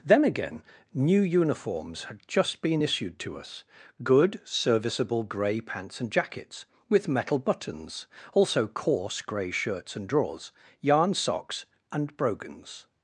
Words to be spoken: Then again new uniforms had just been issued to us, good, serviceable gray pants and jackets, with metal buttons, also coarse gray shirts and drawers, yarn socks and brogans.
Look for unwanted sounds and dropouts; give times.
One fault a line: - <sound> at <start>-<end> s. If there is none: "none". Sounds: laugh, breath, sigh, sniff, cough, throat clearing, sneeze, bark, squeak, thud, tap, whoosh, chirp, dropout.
none